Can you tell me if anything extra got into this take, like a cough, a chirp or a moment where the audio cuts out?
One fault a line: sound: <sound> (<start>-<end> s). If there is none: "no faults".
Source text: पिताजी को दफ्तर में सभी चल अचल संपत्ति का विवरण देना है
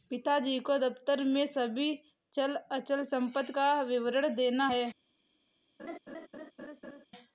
sound: laugh (5.8-7.1 s)